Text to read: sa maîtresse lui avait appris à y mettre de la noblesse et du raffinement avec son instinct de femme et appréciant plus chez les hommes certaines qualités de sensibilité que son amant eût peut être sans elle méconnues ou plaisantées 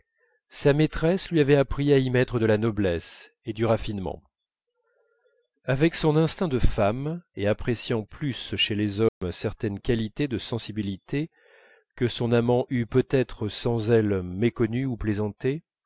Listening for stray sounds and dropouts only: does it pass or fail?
fail